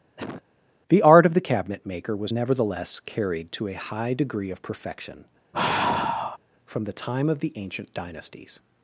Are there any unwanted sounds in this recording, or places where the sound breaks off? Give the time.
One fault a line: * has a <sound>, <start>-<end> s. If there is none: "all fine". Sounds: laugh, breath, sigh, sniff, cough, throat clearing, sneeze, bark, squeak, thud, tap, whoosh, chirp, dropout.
* has a cough, 0.2-0.4 s
* has a sigh, 5.5-6.4 s